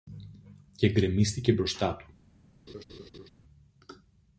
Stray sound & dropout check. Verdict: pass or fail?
fail